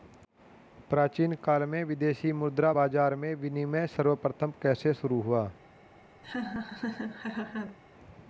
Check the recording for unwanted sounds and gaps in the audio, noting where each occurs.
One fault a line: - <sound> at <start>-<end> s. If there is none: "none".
- laugh at 6.2-7.8 s